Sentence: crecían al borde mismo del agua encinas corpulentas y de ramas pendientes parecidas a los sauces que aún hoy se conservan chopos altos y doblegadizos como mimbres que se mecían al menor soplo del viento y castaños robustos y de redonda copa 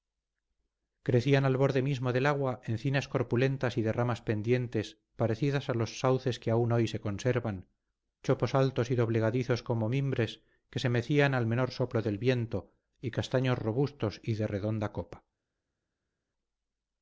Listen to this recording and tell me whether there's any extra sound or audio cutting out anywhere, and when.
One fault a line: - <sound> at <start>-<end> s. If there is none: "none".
none